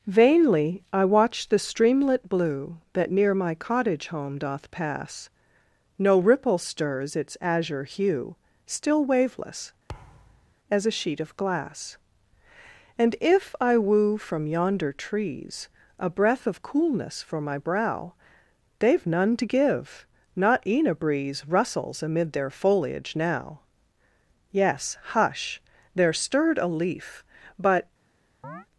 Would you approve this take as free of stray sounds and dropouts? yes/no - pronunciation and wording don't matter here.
no